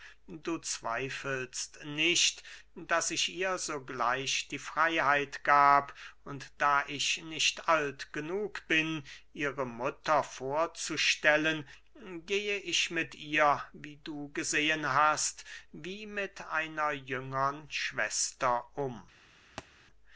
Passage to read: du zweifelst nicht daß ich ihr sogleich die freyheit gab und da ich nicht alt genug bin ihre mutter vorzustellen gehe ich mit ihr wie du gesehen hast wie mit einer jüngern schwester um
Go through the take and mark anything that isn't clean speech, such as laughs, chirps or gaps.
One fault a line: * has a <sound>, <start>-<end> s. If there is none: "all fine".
* has a thud, 19.6-19.7 s